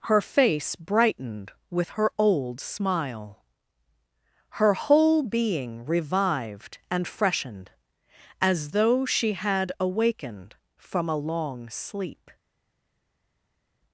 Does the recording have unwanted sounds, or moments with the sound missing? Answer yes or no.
no